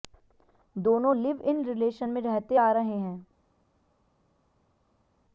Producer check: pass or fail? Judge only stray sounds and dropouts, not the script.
pass